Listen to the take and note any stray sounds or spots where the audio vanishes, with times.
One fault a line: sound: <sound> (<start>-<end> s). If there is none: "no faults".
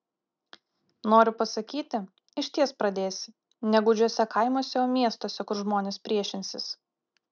no faults